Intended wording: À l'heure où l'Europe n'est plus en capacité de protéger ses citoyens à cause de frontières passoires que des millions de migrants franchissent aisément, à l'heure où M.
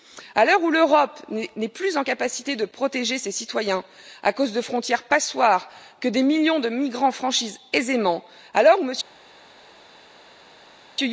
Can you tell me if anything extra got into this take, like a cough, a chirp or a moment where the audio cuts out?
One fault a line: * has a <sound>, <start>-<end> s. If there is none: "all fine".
all fine